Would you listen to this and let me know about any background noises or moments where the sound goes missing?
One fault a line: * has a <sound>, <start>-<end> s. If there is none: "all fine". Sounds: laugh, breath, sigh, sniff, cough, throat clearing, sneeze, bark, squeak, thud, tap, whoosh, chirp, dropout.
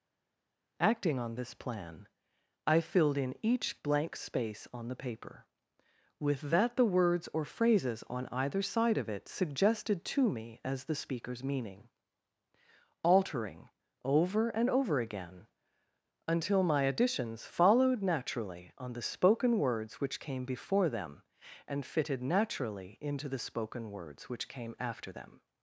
all fine